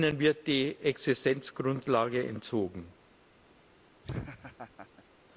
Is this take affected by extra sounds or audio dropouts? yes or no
yes